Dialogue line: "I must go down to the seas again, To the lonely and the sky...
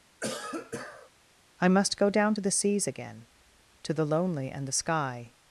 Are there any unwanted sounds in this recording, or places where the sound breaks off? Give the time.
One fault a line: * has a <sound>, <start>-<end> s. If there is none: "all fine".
* has a cough, 0.2-1.1 s